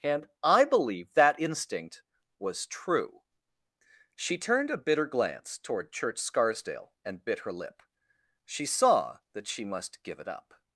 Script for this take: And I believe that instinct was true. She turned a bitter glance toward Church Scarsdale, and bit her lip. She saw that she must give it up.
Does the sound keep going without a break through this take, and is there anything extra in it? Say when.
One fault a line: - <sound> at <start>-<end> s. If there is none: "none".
none